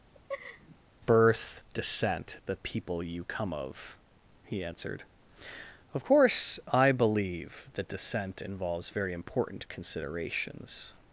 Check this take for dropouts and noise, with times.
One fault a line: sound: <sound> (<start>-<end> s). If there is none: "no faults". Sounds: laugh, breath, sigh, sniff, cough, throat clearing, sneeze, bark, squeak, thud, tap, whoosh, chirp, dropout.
sound: laugh (0.1-0.8 s)